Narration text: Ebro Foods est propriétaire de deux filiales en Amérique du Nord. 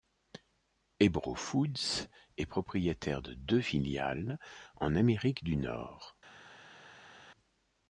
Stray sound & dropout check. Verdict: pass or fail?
pass